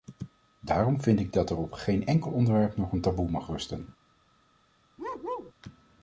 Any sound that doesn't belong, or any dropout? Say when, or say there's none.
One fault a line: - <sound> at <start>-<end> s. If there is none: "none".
- bark at 5.0-5.5 s